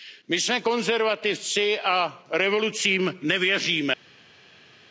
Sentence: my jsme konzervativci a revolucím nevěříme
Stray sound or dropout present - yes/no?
no